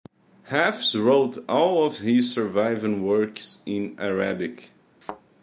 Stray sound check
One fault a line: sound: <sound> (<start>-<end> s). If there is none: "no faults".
sound: thud (5.0-5.2 s)